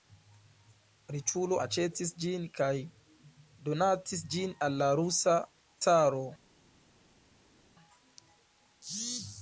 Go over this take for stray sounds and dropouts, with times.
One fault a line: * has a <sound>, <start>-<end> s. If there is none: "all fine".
all fine